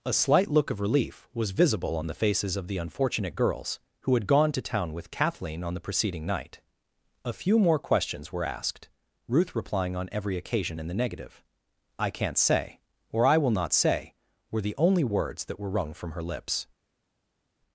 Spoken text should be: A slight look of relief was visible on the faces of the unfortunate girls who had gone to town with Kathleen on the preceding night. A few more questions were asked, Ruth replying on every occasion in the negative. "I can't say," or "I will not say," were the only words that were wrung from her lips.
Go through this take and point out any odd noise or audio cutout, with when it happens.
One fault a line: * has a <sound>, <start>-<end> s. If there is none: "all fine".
all fine